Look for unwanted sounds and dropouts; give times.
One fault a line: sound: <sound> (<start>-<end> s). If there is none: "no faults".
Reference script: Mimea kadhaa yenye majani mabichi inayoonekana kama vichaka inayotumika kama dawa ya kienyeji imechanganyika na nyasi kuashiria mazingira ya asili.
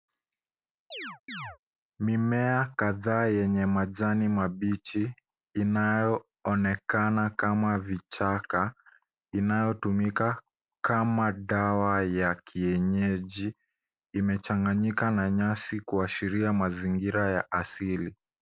sound: chirp (0.9-1.6 s)